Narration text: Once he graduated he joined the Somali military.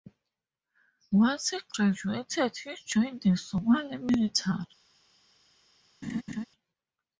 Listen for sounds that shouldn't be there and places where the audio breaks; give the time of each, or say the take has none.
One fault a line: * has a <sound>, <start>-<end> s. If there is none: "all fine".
* has a laugh, 6.0-6.5 s